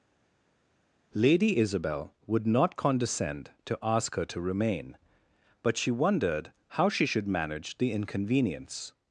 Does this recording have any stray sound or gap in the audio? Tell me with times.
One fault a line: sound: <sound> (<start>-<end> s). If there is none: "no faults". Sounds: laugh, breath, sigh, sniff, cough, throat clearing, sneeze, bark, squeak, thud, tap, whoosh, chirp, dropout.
no faults